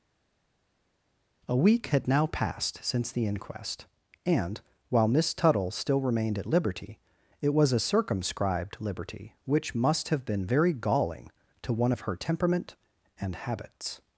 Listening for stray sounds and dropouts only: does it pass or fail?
pass